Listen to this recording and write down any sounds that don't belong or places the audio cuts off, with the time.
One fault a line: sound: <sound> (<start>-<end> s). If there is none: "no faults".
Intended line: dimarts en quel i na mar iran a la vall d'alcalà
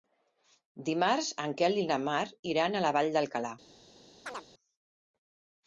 sound: chirp (4.3-4.5 s)